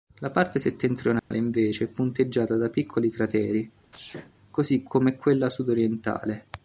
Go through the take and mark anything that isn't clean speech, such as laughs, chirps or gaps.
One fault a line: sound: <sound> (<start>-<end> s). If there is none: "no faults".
sound: dropout (1.2-1.3 s)
sound: sneeze (3.8-4.3 s)